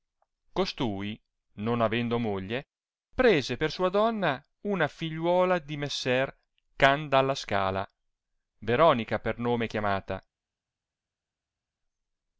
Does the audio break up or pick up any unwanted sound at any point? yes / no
no